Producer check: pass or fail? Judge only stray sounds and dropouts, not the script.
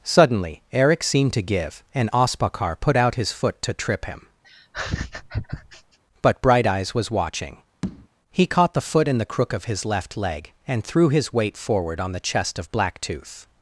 fail